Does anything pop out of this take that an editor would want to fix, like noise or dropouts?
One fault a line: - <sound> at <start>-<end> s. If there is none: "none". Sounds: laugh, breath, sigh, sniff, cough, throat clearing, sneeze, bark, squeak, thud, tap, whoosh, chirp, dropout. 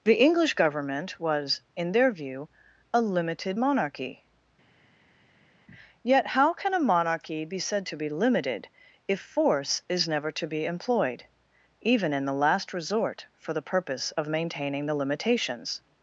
none